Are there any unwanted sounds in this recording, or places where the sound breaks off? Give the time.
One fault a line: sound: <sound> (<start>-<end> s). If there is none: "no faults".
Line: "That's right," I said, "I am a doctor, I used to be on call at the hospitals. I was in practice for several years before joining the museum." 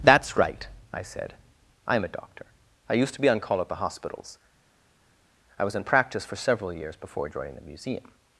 no faults